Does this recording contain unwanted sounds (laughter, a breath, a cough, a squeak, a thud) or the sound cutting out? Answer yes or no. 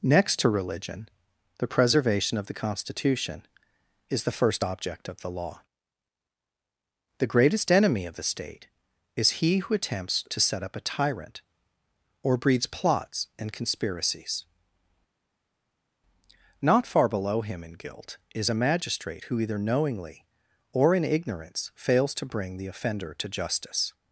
no